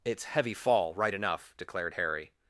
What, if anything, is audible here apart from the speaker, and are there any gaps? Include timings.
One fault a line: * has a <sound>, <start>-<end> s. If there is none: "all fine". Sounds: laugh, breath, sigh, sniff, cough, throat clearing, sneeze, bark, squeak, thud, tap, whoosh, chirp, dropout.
all fine